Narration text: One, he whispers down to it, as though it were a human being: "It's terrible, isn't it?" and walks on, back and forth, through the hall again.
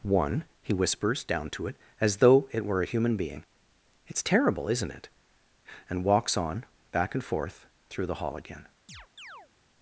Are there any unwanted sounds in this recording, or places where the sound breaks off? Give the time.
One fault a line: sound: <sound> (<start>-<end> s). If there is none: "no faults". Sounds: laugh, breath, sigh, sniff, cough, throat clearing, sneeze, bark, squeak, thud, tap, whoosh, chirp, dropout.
sound: chirp (8.9-9.5 s)